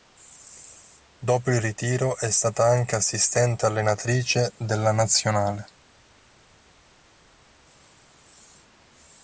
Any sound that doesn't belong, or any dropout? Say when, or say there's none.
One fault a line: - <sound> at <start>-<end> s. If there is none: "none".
none